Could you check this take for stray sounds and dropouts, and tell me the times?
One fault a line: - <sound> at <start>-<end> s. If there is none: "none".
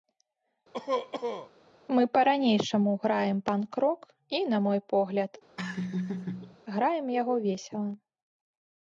- cough at 0.7-1.5 s
- laugh at 5.6-6.6 s